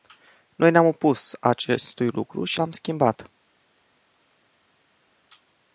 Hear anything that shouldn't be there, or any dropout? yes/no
no